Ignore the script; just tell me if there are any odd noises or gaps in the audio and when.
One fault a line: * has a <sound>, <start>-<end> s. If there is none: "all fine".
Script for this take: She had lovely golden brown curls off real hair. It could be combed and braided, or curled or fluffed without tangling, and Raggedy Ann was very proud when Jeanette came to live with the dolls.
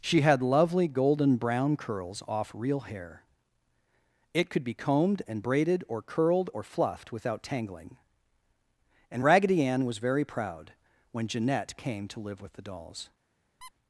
* has a squeak, 13.6-13.7 s